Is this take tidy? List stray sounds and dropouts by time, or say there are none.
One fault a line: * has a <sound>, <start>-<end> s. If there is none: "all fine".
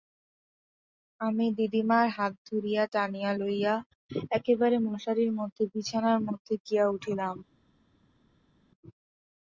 all fine